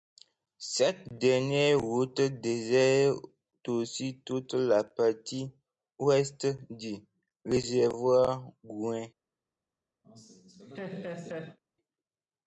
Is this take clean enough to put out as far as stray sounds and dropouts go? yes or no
no